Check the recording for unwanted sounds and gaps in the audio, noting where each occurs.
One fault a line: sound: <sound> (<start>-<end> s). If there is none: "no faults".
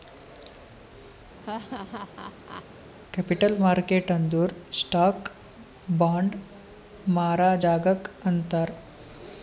sound: laugh (1.4-2.7 s)